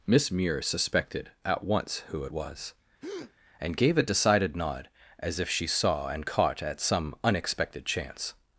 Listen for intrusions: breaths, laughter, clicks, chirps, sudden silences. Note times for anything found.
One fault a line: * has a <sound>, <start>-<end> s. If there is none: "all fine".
* has a breath, 3.0-3.3 s